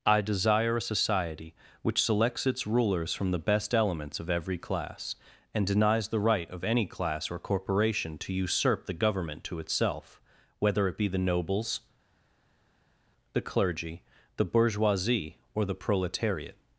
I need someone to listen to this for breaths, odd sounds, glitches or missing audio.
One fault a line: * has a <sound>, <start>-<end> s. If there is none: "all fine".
all fine